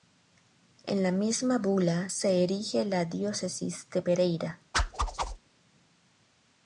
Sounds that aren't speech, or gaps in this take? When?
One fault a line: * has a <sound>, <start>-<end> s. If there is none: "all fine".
* has a whoosh, 4.7-5.4 s